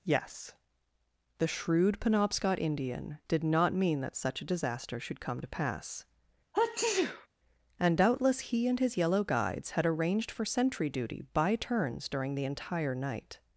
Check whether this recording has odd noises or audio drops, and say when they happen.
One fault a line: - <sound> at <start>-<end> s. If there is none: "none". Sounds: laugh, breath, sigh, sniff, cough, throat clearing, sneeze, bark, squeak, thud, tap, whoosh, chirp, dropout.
- sneeze at 6.5-7.3 s